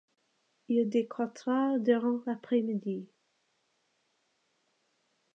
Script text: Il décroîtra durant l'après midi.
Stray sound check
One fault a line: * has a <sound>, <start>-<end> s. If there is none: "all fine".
all fine